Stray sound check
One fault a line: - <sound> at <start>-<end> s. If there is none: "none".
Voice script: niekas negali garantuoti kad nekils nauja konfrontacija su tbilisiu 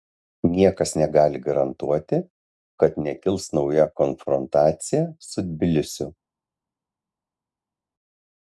none